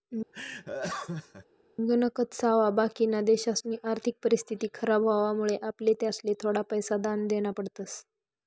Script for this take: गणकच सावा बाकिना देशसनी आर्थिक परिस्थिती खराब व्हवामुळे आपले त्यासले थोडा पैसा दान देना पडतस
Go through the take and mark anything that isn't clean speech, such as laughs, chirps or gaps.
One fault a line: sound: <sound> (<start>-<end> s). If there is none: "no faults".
sound: laugh (0.3-1.5 s)